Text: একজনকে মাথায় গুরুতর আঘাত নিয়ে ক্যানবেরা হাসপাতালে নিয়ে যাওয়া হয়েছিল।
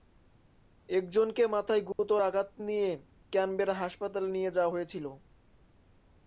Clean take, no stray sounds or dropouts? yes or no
no